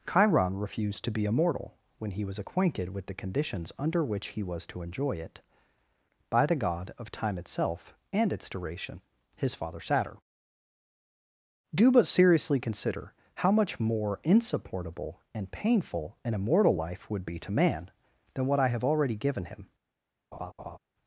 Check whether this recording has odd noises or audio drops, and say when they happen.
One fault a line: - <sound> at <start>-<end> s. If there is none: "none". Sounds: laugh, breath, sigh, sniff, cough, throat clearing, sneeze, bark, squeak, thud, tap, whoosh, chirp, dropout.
- laugh at 20.3-20.8 s